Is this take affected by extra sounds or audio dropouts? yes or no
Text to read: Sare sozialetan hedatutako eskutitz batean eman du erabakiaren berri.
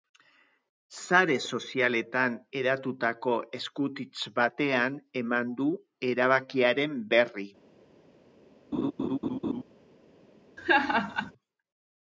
yes